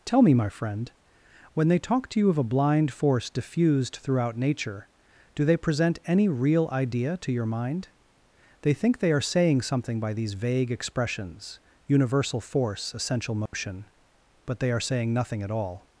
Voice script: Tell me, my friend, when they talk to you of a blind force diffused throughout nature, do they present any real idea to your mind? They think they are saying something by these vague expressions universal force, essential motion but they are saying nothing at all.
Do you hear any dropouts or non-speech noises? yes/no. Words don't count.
yes